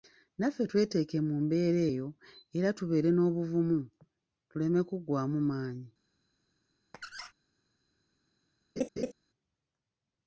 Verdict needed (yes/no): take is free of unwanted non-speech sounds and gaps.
no